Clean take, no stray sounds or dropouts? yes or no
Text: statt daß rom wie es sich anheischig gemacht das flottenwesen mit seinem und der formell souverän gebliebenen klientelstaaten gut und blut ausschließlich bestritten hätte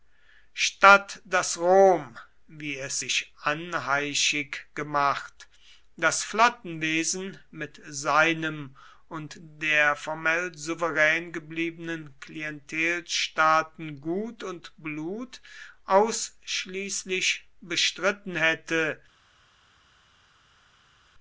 yes